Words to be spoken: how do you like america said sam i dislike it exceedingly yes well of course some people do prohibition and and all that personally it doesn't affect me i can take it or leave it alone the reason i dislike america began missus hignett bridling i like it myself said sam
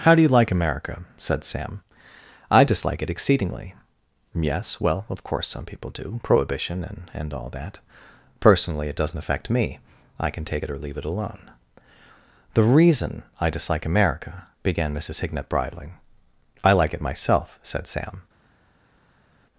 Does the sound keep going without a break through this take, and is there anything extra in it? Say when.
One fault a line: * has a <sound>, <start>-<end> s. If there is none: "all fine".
all fine